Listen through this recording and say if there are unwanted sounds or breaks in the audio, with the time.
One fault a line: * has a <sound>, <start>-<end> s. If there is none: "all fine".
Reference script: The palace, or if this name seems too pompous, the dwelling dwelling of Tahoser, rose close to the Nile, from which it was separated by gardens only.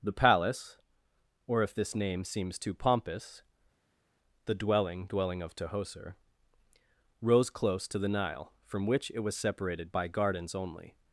all fine